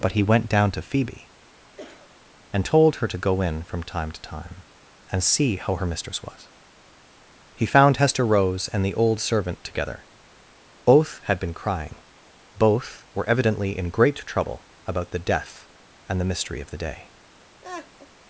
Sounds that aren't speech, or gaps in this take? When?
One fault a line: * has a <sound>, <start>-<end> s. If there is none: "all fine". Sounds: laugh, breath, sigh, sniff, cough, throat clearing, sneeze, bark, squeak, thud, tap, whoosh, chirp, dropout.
* has a cough, 1.8-2.1 s
* has a laugh, 17.6-18.1 s